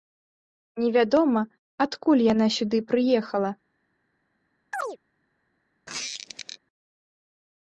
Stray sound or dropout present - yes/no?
yes